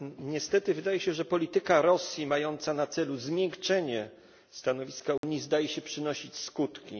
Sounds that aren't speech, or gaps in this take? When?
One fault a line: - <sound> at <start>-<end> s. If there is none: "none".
- dropout at 5.2-5.2 s